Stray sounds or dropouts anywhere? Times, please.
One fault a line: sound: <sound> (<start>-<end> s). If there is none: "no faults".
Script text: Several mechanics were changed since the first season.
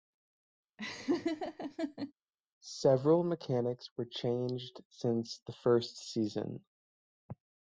sound: laugh (0.8-2.1 s)